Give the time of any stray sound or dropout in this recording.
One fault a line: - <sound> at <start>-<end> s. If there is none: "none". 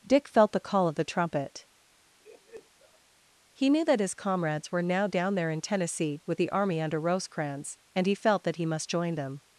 - laugh at 2.2-3.0 s